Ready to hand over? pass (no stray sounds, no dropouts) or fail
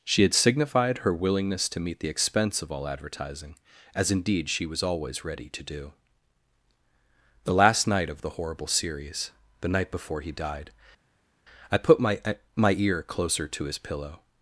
pass